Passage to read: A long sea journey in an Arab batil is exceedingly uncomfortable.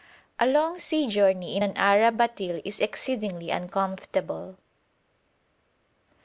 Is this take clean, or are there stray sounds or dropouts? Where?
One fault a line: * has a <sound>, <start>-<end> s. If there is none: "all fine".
all fine